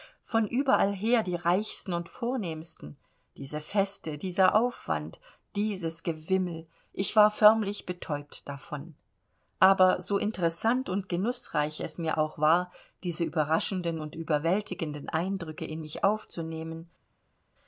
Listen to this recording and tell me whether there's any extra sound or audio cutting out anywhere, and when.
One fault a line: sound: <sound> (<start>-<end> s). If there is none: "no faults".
no faults